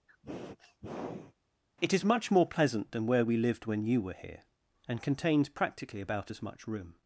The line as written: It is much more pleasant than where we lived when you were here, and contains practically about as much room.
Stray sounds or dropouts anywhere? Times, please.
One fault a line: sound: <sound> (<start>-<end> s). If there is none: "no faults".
sound: sniff (0.1-1.3 s)